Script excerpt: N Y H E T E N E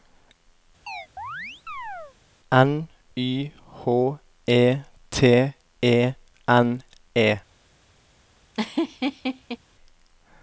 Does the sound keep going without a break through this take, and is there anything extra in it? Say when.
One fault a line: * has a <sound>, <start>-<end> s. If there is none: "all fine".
* has a chirp, 0.9-2.2 s
* has a laugh, 8.5-9.6 s